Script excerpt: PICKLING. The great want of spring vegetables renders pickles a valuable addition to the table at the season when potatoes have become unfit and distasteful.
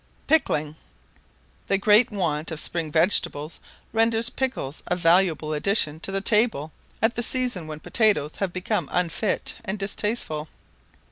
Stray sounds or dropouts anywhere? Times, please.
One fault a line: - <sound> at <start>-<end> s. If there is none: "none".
none